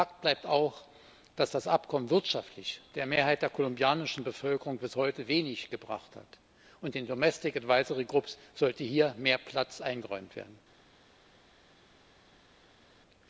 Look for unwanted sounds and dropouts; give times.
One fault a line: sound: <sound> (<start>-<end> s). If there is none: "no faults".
no faults